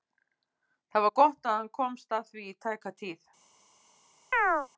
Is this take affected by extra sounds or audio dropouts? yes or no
yes